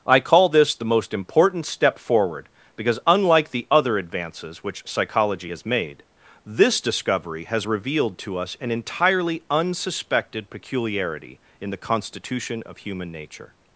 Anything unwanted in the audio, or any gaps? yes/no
no